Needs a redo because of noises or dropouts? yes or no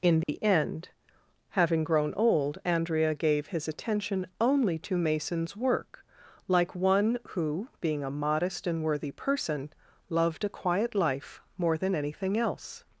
yes